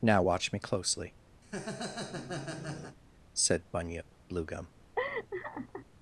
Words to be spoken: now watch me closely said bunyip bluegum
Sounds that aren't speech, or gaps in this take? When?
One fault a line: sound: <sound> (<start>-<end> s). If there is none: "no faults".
sound: laugh (1.4-3.0 s)
sound: laugh (5.0-5.9 s)